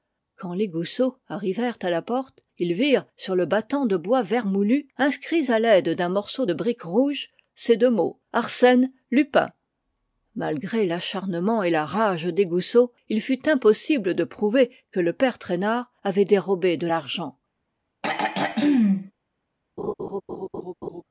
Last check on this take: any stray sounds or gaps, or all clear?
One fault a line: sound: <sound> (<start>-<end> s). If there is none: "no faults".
sound: throat clearing (18.0-19.1 s)
sound: laugh (19.8-21.0 s)